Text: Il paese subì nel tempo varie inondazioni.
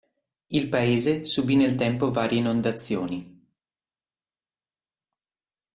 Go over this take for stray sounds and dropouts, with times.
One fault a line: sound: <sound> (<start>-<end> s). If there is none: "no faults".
no faults